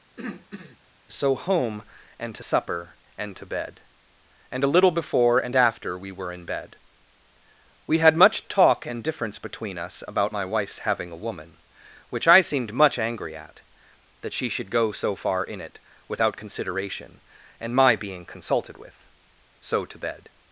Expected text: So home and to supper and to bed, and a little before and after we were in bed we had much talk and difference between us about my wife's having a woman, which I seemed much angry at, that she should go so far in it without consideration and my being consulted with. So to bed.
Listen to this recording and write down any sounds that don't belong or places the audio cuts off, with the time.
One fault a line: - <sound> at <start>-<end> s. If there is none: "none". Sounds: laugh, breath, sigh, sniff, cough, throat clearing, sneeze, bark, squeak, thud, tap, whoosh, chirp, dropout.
- throat clearing at 0.2-0.8 s